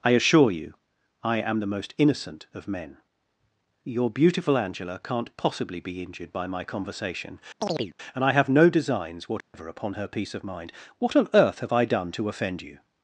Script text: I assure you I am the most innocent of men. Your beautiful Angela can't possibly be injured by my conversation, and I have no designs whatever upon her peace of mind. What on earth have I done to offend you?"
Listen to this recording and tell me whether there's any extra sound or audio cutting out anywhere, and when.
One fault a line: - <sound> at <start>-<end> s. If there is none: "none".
- chirp at 7.6-7.9 s
- dropout at 9.4-9.5 s